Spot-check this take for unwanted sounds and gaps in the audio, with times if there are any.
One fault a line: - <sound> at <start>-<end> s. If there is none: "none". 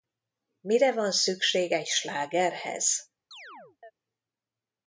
- chirp at 3.3-3.9 s